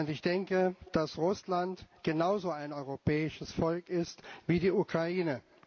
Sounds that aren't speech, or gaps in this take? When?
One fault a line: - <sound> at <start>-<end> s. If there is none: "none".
none